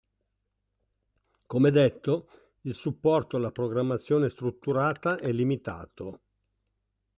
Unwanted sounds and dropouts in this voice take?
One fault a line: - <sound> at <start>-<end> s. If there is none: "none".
none